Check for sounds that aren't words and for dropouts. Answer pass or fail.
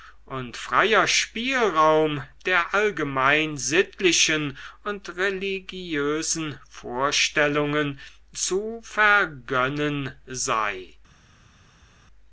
pass